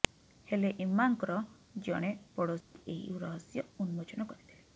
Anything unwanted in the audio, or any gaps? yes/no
yes